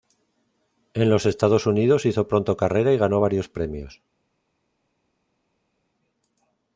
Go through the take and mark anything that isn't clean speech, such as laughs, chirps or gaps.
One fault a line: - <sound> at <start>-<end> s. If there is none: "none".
none